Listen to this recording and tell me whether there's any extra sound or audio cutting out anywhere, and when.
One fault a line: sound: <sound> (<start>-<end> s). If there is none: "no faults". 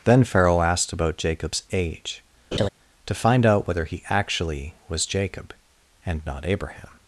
sound: laugh (2.5-2.7 s)